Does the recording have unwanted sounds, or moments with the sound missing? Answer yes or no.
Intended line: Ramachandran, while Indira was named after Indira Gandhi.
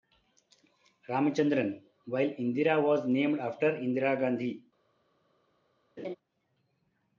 yes